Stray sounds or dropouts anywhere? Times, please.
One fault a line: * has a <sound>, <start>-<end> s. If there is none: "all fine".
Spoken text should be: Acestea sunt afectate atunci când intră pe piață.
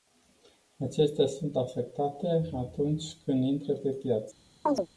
* has a chirp, 4.7-4.9 s